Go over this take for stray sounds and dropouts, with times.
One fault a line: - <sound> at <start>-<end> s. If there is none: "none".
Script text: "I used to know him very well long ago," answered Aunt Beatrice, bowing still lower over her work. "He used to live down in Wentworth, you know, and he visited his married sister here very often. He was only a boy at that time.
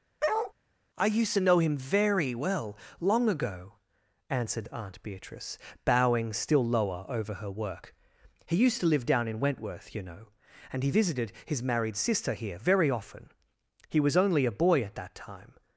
- bark at 0.2-0.5 s